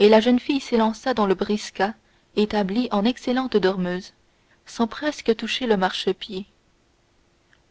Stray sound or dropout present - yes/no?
no